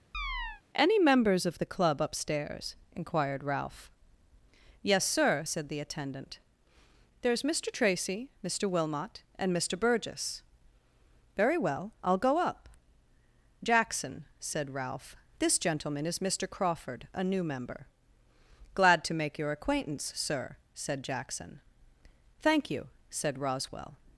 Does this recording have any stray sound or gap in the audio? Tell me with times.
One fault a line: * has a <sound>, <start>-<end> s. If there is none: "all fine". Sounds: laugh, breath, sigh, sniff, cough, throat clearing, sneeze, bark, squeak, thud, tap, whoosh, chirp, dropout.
* has a chirp, 0.1-0.6 s